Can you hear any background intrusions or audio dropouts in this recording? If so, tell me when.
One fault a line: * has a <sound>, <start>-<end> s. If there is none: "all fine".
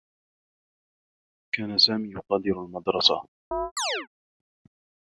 * has a chirp, 3.5-4.1 s